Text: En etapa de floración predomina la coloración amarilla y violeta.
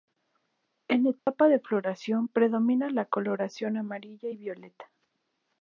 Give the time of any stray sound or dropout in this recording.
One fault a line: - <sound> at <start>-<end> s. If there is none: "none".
- dropout at 1.2-1.3 s